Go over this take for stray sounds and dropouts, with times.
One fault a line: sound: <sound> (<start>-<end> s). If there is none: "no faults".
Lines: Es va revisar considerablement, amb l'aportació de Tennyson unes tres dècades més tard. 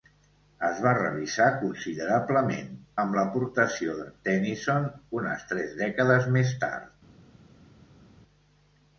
no faults